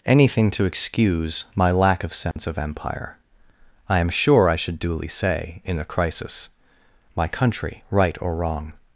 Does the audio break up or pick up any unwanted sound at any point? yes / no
yes